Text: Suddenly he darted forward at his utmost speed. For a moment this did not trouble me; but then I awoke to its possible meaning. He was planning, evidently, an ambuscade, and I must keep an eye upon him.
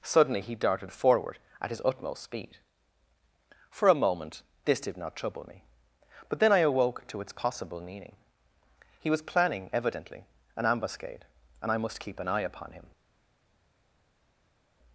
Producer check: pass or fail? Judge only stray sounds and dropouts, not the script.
pass